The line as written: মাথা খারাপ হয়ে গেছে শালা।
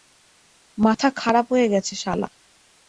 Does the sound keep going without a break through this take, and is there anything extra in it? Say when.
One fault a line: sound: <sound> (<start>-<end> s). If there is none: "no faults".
no faults